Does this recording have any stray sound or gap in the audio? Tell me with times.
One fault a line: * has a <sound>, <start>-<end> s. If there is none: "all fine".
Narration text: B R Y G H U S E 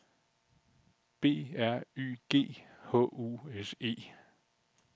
all fine